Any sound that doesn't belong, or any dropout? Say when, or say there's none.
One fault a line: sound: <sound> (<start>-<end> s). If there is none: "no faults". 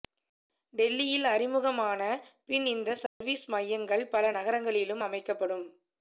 sound: dropout (3.1-3.2 s)